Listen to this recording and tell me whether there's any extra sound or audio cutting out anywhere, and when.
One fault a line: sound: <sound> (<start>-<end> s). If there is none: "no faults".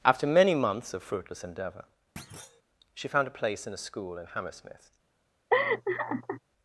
sound: thud (2.2-2.6 s)
sound: laugh (5.5-6.4 s)